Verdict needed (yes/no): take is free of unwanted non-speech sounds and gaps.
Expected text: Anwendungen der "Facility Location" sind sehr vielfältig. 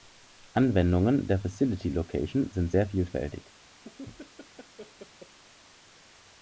no